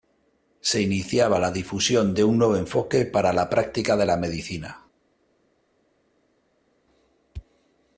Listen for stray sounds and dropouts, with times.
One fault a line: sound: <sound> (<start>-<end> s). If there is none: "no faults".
no faults